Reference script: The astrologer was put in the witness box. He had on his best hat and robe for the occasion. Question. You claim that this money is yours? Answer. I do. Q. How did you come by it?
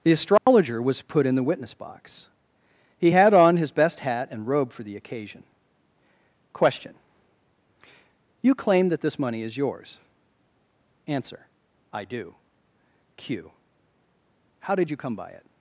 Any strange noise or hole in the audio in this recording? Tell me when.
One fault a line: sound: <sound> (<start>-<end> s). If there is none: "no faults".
sound: dropout (0.4-0.5 s)